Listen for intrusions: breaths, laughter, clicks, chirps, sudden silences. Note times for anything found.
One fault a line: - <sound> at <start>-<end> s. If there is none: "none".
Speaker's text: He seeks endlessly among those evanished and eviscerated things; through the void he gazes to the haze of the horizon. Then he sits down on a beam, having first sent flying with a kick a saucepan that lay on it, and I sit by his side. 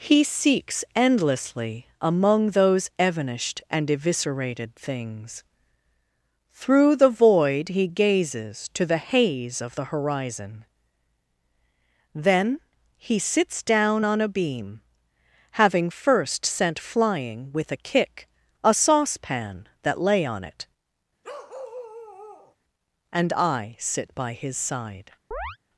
- bark at 21.2-22.6 s
- chirp at 25.3-25.6 s